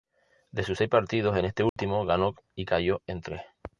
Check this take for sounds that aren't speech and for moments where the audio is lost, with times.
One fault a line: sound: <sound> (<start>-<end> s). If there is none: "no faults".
sound: dropout (1.7-1.8 s)